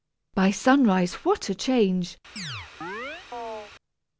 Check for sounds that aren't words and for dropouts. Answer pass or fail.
fail